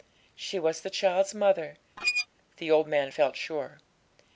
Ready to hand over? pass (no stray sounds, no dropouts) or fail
fail